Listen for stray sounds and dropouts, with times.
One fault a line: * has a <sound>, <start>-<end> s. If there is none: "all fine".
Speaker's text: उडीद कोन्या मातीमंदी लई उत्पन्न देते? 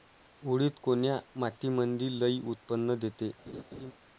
* has a laugh, 3.5-3.9 s